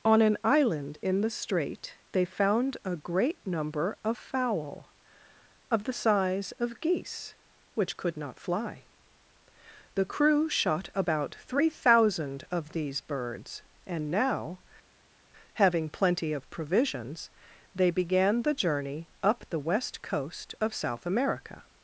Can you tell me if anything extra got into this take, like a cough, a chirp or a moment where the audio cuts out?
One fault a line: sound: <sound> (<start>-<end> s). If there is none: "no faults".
no faults